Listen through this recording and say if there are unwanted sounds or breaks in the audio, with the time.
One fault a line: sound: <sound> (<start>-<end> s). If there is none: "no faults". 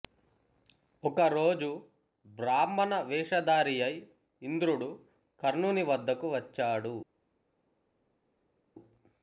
no faults